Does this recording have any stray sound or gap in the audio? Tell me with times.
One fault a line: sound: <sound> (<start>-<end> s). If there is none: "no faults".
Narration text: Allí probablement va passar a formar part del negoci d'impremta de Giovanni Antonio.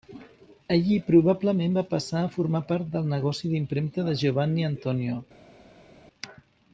no faults